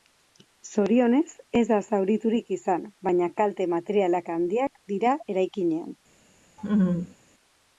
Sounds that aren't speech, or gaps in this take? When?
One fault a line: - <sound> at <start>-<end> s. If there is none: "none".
- laugh at 6.6-7.1 s